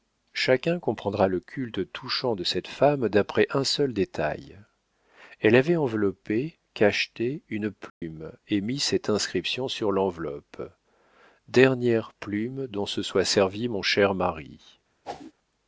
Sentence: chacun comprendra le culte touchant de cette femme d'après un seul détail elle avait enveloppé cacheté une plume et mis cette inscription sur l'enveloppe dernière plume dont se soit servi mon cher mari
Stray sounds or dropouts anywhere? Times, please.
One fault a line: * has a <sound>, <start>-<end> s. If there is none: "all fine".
* has a dropout, 7.9-8.0 s
* has a whoosh, 15.0-15.3 s